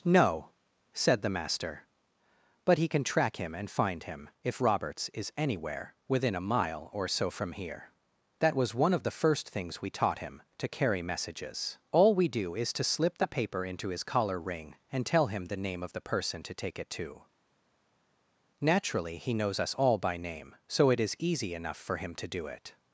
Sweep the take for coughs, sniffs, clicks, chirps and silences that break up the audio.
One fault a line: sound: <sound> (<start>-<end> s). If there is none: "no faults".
no faults